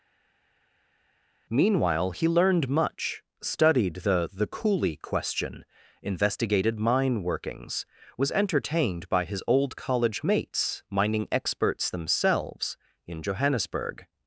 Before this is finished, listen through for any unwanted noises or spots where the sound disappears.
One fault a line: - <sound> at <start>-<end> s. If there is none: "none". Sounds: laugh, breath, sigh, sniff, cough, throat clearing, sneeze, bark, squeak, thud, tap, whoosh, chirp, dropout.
none